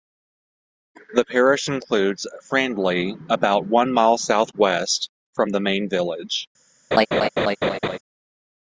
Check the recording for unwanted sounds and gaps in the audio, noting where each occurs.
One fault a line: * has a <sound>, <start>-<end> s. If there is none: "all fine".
* has a laugh, 6.9-8.0 s